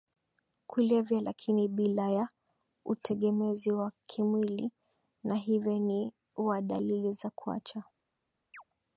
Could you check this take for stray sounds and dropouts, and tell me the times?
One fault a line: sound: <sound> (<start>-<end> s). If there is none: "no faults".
sound: chirp (8.5-8.6 s)